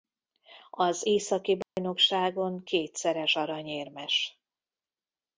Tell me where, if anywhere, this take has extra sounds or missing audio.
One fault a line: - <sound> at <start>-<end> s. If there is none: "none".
- dropout at 1.6-1.8 s